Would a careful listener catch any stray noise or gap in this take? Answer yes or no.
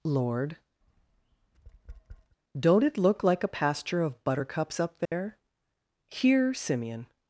yes